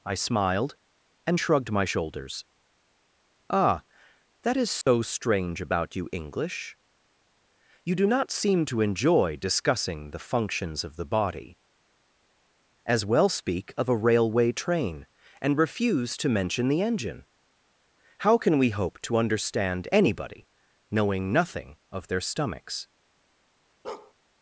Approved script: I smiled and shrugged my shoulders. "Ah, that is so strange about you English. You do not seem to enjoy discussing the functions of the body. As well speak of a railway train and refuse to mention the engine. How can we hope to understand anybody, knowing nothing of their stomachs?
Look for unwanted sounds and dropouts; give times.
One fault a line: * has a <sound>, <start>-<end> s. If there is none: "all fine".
* has a dropout, 4.8-4.9 s
* has a bark, 23.8-24.1 s